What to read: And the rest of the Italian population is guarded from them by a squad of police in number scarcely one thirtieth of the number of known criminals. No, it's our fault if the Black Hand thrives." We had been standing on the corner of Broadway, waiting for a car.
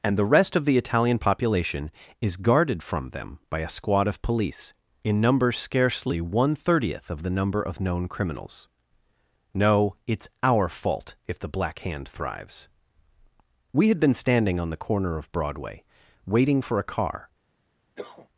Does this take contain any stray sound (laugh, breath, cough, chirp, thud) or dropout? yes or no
yes